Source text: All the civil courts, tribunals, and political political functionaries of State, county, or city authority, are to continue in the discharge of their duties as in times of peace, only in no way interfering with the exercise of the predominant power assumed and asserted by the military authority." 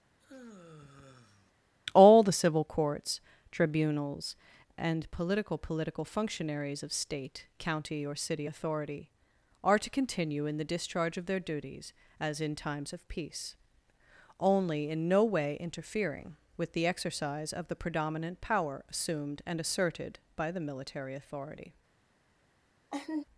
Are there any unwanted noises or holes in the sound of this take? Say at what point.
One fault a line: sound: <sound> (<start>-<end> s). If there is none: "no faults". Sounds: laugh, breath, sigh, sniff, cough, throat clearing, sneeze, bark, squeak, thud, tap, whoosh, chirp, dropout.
sound: sigh (0.2-1.5 s)
sound: laugh (22.9-23.2 s)